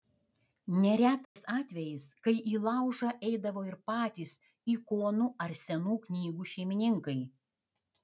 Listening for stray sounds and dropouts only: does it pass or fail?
fail